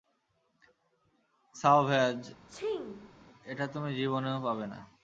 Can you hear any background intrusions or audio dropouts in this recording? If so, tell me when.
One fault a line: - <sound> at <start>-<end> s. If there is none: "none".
- sneeze at 2.5-3.1 s